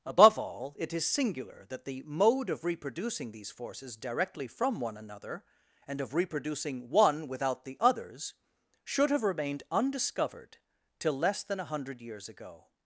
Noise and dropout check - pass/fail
pass